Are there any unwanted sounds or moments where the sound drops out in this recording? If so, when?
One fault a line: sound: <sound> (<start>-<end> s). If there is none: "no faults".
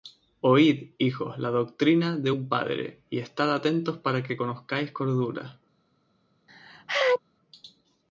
sound: sneeze (6.5-7.2 s)